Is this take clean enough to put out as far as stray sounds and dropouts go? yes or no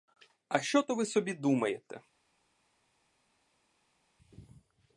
yes